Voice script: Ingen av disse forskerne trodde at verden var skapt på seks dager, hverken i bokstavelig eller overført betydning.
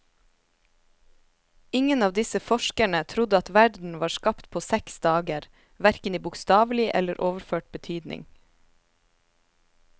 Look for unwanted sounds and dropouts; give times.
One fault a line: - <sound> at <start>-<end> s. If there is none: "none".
none